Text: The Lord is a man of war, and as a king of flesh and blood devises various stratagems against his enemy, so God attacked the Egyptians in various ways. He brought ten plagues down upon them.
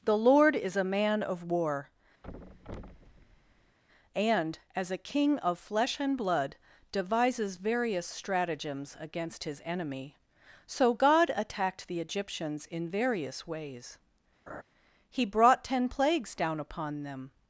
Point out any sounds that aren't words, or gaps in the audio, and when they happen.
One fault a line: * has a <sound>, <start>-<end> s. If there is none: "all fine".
* has a thud, 2.2-3.8 s
* has a laugh, 14.5-14.6 s